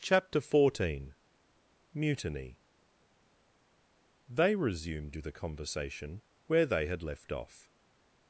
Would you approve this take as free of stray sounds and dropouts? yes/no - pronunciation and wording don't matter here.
yes